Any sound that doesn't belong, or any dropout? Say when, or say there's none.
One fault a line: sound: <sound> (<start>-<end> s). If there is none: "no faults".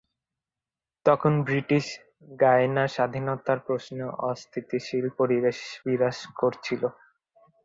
no faults